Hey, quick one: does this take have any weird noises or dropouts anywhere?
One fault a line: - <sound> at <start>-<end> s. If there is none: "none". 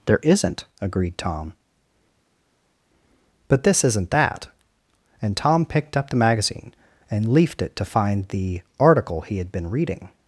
none